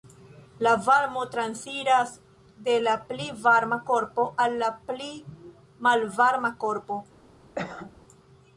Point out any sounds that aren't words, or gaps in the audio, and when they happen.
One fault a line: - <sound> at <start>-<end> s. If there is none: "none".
- cough at 7.6-8.0 s